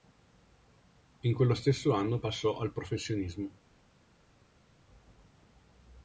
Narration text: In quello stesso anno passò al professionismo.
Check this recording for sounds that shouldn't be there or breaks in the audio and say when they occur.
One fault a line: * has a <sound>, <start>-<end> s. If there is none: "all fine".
all fine